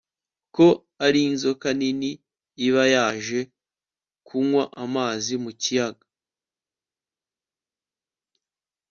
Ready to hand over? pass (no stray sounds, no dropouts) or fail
pass